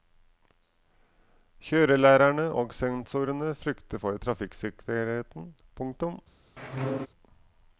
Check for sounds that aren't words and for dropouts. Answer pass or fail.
fail